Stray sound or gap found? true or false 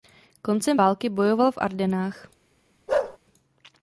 true